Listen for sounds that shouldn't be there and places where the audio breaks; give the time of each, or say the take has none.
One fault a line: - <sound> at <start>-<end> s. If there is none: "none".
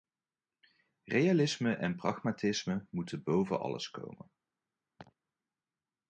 - laugh at 5.0-5.1 s